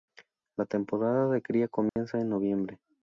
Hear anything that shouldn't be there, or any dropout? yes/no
yes